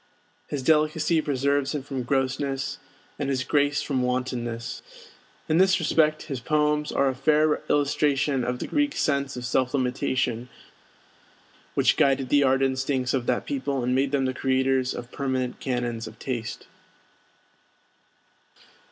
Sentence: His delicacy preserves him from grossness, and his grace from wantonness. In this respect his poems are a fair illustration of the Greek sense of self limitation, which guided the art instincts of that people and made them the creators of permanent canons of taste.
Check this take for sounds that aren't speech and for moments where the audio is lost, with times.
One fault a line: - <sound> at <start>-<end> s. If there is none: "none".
none